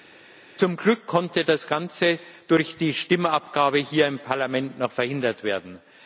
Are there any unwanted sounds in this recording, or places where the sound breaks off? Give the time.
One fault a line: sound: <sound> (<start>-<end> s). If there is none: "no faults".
no faults